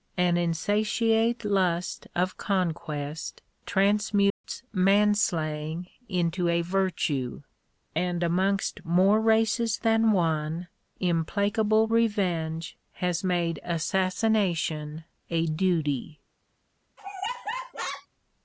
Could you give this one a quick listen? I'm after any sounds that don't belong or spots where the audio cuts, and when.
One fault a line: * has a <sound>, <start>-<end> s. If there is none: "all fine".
* has a dropout, 4.3-4.4 s
* has a laugh, 17.0-18.1 s